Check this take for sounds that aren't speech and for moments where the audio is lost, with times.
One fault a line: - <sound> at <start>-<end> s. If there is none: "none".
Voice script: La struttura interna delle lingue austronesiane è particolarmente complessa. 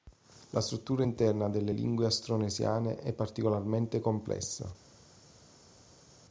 none